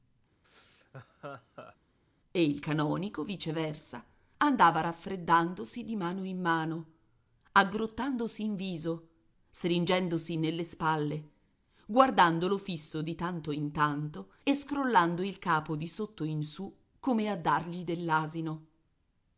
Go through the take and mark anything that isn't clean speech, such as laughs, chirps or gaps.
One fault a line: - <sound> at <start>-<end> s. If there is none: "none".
- laugh at 0.4-1.8 s